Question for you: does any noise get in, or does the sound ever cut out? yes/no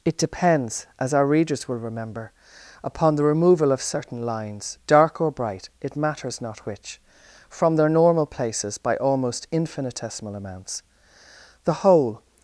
no